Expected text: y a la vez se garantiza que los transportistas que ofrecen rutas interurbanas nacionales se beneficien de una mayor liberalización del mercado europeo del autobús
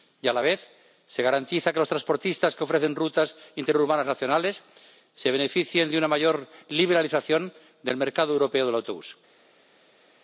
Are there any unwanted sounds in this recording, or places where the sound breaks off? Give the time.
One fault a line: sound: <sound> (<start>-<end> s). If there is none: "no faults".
no faults